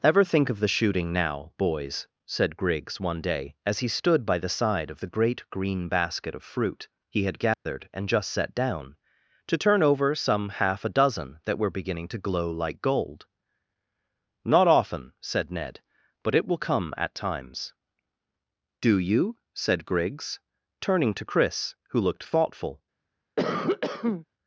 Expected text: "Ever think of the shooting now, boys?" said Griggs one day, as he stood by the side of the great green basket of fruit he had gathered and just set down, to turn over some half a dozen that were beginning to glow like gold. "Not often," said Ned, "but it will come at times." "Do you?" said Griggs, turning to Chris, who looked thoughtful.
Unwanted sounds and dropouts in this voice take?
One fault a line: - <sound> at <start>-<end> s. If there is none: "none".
- dropout at 7.5-7.7 s
- cough at 23.4-24.3 s